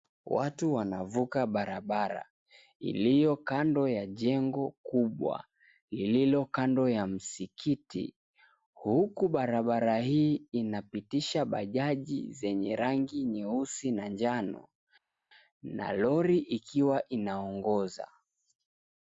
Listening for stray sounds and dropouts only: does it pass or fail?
pass